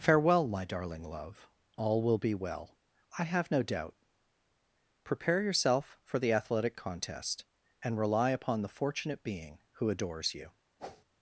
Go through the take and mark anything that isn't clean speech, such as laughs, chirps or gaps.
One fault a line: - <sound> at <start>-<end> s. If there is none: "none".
- whoosh at 10.8-11.0 s